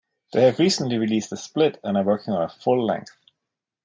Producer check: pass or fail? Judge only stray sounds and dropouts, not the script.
pass